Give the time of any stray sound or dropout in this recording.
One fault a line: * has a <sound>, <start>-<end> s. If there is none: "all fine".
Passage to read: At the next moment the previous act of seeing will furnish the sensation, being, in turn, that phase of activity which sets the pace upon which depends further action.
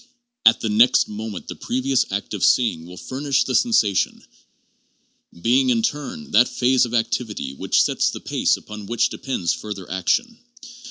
all fine